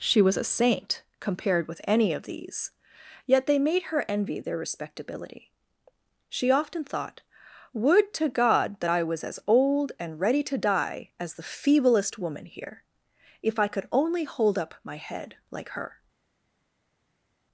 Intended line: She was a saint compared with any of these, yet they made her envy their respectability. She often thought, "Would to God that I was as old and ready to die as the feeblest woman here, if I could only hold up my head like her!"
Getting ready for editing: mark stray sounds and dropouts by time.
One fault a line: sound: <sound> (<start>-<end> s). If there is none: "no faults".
no faults